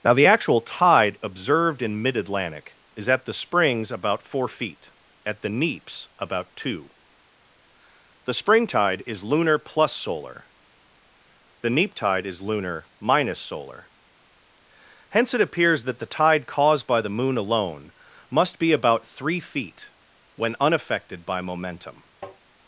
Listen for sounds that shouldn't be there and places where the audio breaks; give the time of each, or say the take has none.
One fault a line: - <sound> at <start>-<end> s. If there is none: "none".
- tap at 22.2-22.4 s